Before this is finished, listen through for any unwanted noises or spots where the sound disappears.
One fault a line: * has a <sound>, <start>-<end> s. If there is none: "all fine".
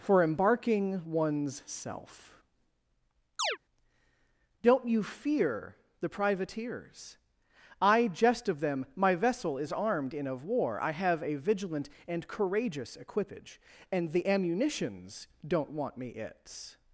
* has a chirp, 3.4-3.6 s